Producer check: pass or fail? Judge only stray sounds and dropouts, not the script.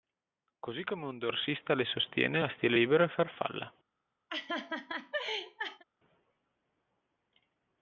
fail